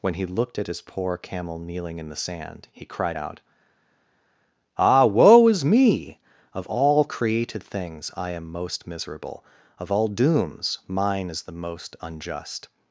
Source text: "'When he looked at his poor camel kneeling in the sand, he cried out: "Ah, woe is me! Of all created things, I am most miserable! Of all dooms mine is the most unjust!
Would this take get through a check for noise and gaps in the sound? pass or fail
pass